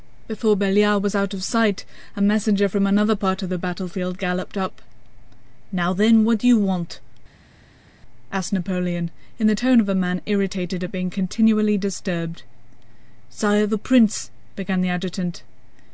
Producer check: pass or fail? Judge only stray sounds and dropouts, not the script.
pass